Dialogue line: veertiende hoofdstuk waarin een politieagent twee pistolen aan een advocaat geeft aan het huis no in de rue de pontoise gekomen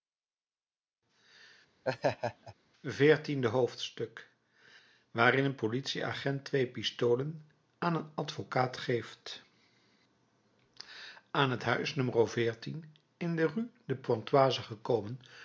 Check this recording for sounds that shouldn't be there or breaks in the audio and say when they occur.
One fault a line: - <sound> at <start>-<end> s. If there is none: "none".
- laugh at 1.8-2.5 s